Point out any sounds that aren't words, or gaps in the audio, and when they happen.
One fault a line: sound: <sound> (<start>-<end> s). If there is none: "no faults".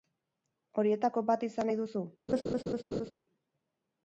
sound: laugh (2.3-3.1 s)